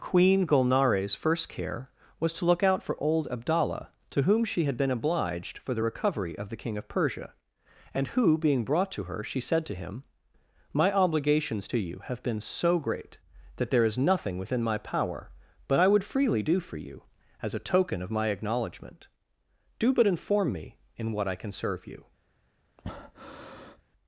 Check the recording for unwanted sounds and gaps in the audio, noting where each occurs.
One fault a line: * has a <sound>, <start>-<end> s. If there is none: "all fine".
* has a breath, 22.8-23.8 s